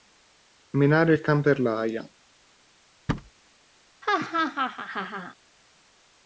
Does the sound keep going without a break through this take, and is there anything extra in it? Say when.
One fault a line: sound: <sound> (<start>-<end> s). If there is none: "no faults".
sound: thud (3.1-3.3 s)
sound: laugh (4.0-5.4 s)